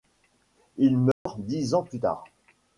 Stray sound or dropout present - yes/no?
yes